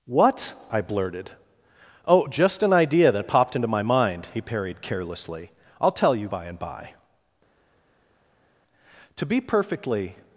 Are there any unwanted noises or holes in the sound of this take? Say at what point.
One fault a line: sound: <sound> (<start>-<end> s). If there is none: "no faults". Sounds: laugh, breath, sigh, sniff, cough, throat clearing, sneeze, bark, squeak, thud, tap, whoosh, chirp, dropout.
no faults